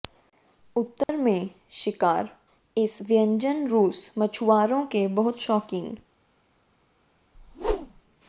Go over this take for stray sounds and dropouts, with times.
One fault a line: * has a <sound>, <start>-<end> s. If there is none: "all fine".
* has a dropout, 1.0-1.1 s
* has a whoosh, 7.3-8.0 s